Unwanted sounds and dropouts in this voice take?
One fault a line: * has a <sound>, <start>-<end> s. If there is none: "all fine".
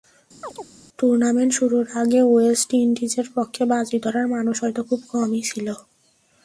* has a chirp, 0.4-0.7 s